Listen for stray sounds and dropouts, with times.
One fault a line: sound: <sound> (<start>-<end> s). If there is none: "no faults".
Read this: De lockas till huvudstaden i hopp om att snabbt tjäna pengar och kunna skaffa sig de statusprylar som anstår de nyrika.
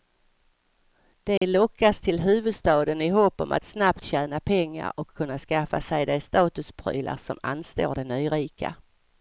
sound: dropout (1.4-1.4 s)